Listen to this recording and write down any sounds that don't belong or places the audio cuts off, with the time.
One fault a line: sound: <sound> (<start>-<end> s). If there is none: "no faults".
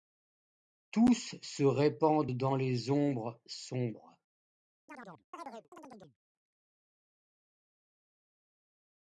sound: chirp (4.9-6.2 s)